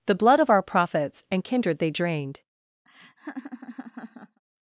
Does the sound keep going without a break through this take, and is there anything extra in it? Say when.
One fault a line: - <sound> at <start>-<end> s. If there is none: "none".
- laugh at 2.9-4.4 s